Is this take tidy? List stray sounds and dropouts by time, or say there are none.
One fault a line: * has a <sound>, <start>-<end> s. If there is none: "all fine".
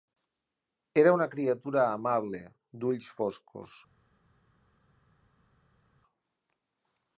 all fine